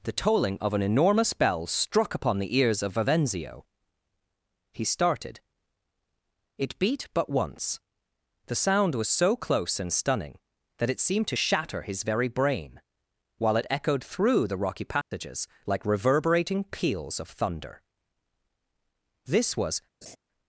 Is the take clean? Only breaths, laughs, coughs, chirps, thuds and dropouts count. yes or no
no